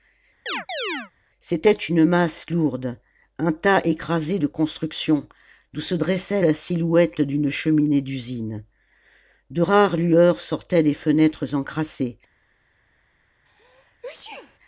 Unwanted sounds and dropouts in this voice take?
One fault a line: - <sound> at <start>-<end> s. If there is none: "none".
- chirp at 0.5-1.1 s
- sneeze at 13.5-14.6 s